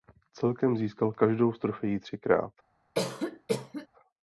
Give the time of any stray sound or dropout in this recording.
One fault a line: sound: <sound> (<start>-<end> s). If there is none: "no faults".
sound: cough (2.9-3.9 s)